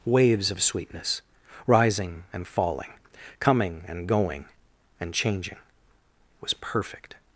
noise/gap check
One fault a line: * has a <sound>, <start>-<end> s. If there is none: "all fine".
all fine